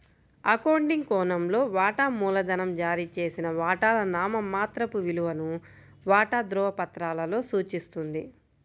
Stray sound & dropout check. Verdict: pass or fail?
pass